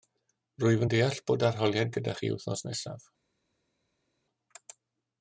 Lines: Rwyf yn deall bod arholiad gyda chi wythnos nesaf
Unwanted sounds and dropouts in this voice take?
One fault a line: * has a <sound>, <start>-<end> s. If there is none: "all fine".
all fine